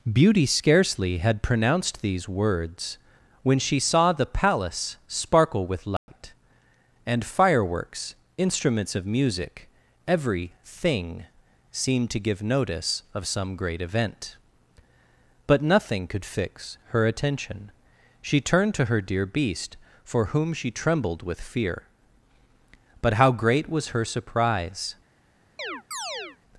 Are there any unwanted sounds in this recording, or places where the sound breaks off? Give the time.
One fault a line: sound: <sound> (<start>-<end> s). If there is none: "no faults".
sound: dropout (6.0-6.1 s)
sound: chirp (25.6-26.4 s)